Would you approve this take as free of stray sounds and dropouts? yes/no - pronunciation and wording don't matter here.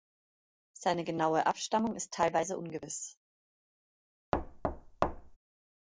no